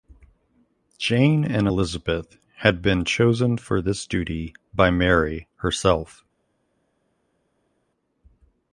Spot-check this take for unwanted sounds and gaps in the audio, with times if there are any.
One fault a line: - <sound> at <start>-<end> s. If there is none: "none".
none